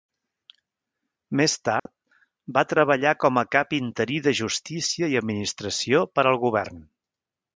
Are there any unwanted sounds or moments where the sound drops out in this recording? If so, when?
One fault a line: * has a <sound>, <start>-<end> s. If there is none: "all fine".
* has a dropout, 1.8-1.9 s